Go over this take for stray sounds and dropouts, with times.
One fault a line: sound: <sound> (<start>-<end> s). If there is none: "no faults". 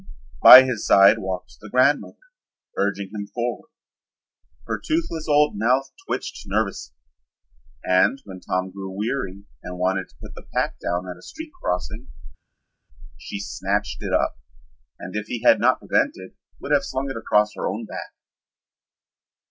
no faults